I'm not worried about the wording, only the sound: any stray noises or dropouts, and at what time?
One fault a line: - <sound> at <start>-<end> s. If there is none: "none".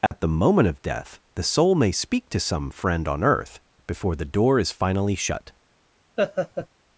- dropout at 0.1-0.1 s
- laugh at 6.2-6.7 s